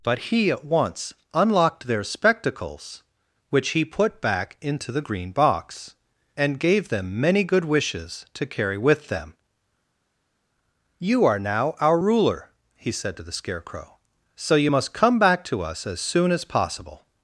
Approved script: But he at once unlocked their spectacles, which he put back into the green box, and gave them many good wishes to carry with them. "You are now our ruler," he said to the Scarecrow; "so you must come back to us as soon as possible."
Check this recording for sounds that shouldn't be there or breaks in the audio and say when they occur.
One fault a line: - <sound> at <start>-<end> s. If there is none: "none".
none